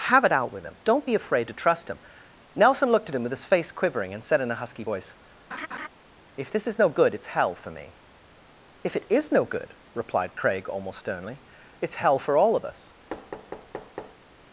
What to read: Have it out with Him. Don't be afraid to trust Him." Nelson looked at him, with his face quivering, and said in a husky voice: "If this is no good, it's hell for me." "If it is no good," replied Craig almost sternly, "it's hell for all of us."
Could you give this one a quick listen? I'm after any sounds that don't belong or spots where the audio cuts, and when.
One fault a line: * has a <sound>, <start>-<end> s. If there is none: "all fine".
* has a laugh, 5.5-5.9 s
* has a thud, 13.1-14.2 s